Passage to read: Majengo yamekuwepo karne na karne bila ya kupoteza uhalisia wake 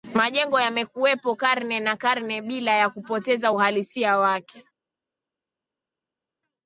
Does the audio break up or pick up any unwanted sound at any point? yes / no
no